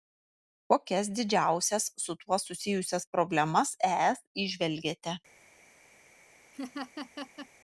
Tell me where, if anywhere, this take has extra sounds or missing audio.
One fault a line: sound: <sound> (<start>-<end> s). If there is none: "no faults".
sound: laugh (6.5-7.5 s)